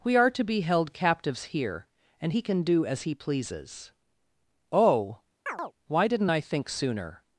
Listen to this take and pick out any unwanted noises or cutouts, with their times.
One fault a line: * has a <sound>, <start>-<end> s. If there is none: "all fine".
* has a chirp, 5.5-5.7 s